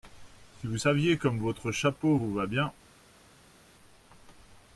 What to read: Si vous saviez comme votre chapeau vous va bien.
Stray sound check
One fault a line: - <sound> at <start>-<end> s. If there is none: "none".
none